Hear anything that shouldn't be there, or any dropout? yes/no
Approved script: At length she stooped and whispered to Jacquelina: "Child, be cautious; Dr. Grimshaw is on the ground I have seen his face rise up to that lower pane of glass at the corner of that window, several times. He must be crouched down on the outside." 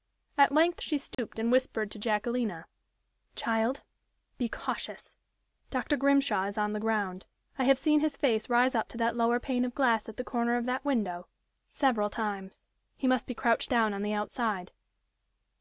yes